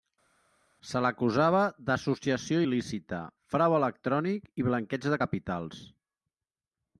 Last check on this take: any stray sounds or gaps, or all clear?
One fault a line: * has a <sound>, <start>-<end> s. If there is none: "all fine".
all fine